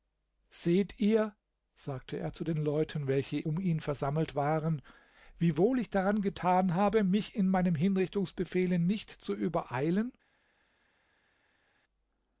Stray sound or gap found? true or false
false